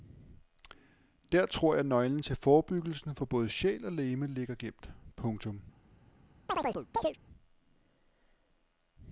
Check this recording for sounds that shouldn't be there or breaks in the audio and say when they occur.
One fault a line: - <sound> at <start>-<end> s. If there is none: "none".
- chirp at 6.5-7.2 s